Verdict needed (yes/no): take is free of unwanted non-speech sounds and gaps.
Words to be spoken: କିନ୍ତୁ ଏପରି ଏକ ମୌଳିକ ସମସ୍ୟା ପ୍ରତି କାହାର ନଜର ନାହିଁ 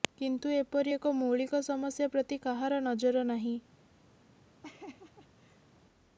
no